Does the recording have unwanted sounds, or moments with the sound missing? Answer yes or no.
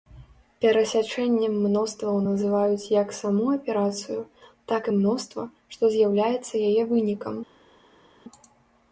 no